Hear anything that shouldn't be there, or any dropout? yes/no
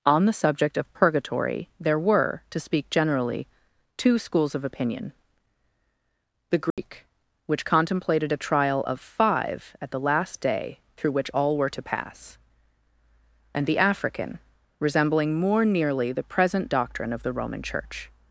yes